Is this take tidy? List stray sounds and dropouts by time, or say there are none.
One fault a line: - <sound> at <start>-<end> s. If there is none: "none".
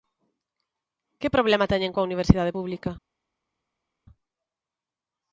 none